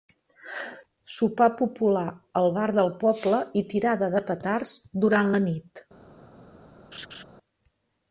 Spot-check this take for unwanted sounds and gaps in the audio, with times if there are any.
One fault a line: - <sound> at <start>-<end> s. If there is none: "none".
- laugh at 6.9-7.2 s